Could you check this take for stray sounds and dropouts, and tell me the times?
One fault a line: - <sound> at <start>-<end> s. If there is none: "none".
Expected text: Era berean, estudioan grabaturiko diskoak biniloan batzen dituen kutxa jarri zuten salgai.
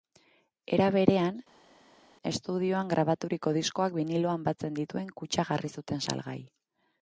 none